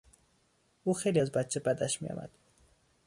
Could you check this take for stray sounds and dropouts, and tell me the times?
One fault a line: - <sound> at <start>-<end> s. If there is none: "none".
none